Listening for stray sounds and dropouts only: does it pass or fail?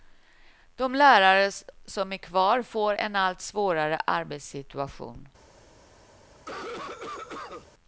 fail